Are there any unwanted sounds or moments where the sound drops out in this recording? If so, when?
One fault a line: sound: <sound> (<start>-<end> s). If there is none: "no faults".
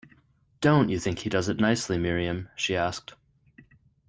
no faults